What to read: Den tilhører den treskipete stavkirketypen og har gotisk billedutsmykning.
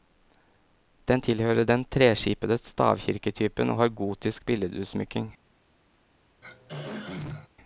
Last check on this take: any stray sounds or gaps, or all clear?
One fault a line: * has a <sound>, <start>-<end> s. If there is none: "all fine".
* has a throat clearing, 6.4-7.5 s